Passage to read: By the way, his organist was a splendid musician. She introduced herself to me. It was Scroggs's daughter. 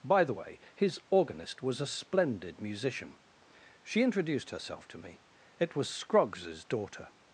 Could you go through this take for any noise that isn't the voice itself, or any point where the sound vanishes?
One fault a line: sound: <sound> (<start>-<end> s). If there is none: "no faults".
no faults